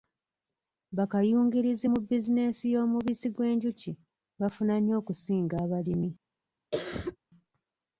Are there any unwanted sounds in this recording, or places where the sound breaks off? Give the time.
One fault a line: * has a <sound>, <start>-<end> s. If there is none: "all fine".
* has a cough, 6.7-7.2 s